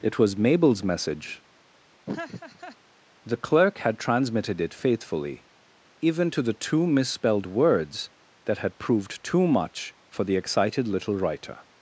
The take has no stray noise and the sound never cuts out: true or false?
false